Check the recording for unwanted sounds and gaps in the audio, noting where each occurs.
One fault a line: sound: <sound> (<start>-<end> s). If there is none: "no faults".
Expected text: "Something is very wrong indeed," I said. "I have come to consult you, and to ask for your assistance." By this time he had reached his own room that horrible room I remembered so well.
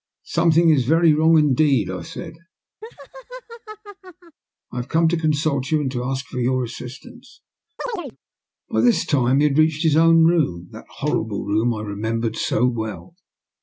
sound: laugh (2.8-4.4 s)
sound: chirp (7.8-8.2 s)